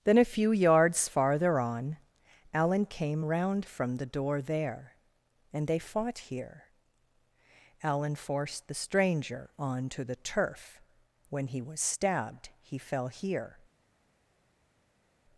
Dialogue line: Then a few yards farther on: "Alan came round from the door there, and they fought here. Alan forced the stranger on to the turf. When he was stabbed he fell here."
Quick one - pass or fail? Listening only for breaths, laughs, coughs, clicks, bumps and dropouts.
pass